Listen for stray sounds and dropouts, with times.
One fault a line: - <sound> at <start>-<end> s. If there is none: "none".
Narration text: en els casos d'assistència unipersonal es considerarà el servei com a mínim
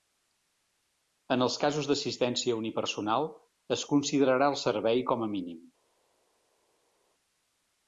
none